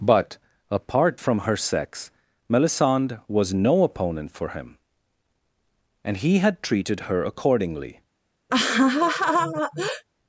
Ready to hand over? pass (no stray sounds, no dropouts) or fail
fail